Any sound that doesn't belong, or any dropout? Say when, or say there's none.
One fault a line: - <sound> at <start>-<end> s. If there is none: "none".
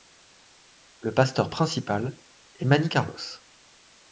none